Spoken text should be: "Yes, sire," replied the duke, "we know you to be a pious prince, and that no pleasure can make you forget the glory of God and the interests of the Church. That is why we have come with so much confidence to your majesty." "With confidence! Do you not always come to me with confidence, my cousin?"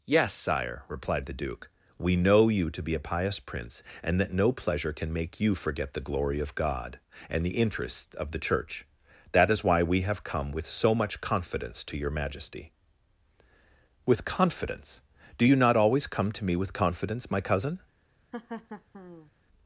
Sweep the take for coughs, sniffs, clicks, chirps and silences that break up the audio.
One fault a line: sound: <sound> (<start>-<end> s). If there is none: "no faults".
sound: laugh (18.3-19.3 s)